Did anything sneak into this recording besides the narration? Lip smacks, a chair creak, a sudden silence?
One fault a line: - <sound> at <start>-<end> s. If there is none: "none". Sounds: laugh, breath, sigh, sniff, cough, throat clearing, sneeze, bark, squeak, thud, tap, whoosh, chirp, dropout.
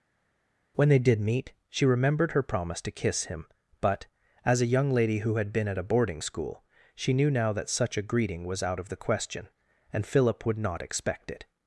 none